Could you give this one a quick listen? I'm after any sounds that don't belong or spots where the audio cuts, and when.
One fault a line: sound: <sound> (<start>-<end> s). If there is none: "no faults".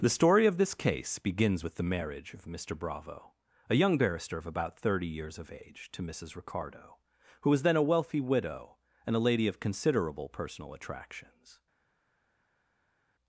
no faults